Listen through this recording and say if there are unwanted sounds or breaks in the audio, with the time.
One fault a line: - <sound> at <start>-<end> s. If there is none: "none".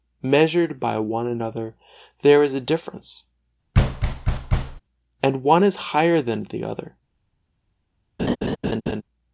- thud at 3.7-4.8 s
- laugh at 8.2-9.0 s